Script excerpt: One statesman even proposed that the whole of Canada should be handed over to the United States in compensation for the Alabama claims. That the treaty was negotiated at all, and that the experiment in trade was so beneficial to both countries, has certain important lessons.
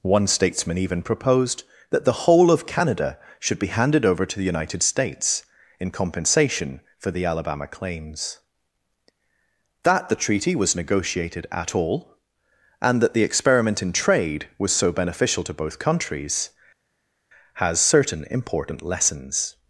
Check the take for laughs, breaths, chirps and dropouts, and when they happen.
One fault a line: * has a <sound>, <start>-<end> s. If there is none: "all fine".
all fine